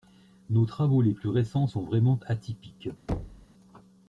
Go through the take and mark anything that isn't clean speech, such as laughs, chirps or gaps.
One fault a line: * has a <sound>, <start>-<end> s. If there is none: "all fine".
* has a thud, 3.1-3.5 s